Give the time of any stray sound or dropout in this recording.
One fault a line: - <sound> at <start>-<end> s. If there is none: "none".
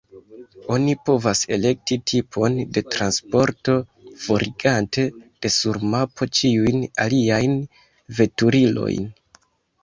none